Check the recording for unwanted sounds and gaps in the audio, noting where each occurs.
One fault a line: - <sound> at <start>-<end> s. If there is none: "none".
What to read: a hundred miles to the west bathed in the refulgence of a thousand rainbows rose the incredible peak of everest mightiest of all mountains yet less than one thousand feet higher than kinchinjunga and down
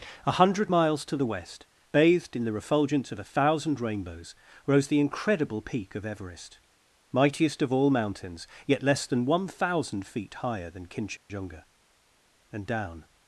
- dropout at 11.2-11.3 s